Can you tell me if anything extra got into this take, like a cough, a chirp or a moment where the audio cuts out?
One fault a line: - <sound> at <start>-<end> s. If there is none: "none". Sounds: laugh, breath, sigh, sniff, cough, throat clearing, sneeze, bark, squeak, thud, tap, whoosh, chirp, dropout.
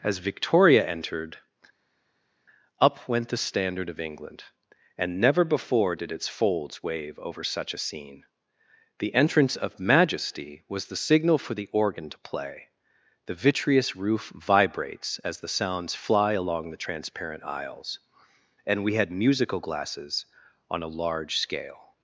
none